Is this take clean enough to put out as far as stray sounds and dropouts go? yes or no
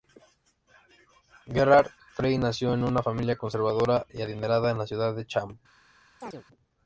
no